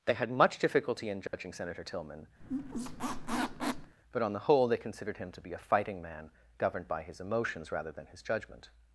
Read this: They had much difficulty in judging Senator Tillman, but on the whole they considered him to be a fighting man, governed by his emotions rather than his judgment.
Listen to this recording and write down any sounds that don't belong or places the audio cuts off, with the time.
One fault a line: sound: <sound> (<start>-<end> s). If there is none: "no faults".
sound: dropout (1.3-1.3 s)
sound: squeak (2.4-4.0 s)